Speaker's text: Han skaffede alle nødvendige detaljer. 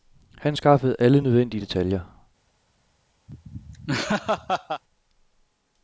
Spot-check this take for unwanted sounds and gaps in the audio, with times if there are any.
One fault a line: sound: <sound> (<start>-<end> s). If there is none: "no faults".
sound: laugh (3.3-4.8 s)